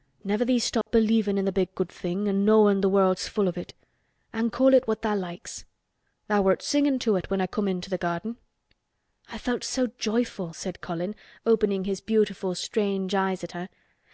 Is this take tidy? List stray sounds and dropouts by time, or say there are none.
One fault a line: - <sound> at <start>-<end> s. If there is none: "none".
- dropout at 0.8-0.9 s